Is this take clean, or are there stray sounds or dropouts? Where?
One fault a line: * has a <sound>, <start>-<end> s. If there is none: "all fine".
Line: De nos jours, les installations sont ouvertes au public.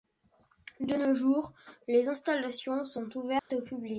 * has a dropout, 3.4-3.5 s